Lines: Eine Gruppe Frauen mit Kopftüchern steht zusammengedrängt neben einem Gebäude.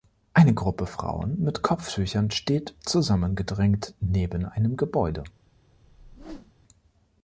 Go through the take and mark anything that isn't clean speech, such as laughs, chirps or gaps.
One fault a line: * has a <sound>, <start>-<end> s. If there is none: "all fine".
* has a whoosh, 5.8-6.5 s